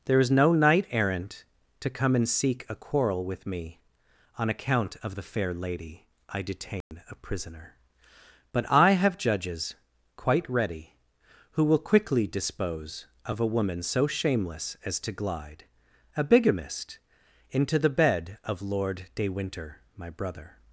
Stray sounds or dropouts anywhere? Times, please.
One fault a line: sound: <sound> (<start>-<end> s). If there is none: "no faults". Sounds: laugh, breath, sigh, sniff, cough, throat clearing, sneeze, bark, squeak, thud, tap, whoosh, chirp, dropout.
sound: dropout (6.8-6.9 s)